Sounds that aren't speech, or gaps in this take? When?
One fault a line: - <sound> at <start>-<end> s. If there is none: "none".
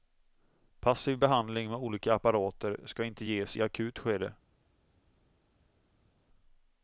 none